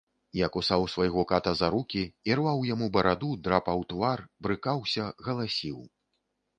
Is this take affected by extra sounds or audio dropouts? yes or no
no